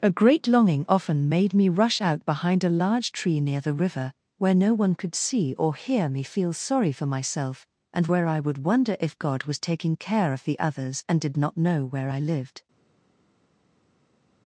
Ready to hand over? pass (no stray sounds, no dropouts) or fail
pass